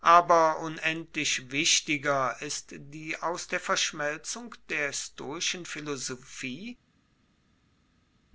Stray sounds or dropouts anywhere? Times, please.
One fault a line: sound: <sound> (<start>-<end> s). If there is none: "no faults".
no faults